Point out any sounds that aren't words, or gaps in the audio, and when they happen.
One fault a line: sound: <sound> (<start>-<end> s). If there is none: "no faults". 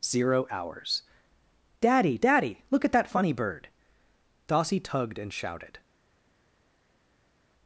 no faults